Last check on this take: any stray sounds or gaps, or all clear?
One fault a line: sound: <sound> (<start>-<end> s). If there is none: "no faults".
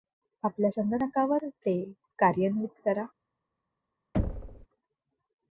sound: thud (4.1-4.7 s)